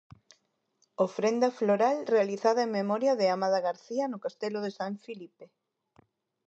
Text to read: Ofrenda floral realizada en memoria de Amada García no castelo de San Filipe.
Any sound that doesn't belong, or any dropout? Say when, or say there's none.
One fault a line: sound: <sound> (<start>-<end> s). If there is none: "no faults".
no faults